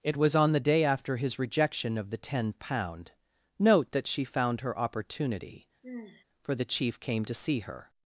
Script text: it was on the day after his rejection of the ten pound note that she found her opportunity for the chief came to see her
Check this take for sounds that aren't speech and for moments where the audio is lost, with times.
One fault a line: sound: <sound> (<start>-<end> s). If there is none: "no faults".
sound: sigh (5.8-6.2 s)